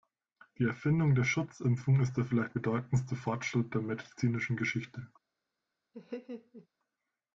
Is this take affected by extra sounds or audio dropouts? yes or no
yes